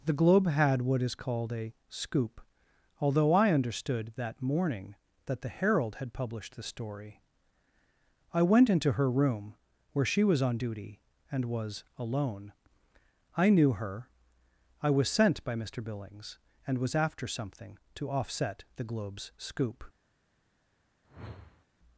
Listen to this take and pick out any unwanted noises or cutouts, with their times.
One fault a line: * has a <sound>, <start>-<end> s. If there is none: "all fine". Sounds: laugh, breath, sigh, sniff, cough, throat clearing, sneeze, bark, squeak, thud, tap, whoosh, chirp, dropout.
* has a whoosh, 21.0-21.7 s